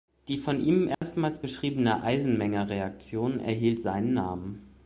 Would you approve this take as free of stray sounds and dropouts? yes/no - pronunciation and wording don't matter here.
no